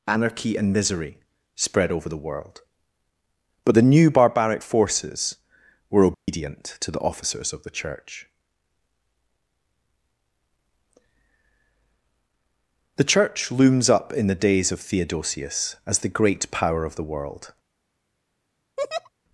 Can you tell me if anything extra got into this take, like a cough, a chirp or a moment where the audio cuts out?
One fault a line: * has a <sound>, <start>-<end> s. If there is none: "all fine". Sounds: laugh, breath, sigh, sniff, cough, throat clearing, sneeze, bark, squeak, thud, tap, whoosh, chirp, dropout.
* has a dropout, 6.1-6.3 s
* has a laugh, 18.8-19.1 s